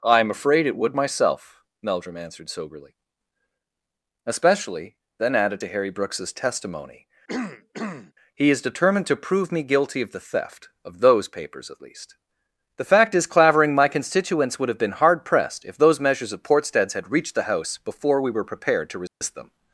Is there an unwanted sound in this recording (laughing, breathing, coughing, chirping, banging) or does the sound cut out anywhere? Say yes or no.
yes